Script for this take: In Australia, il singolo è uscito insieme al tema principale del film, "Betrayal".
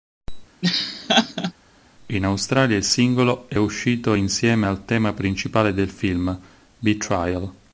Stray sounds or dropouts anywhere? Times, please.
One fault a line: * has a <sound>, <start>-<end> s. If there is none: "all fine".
* has a laugh, 0.6-1.5 s